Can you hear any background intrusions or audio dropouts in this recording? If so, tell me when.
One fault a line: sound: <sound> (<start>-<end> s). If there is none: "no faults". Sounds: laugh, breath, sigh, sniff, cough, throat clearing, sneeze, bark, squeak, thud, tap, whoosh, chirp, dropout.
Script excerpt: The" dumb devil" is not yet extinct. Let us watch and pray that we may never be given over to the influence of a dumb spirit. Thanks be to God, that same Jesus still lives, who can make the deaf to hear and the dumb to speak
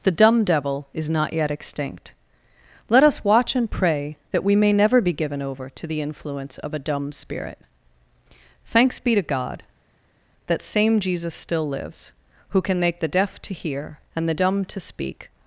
no faults